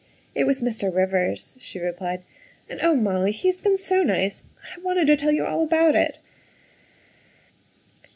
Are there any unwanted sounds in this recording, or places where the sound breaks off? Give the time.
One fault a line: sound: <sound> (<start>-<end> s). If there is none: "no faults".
no faults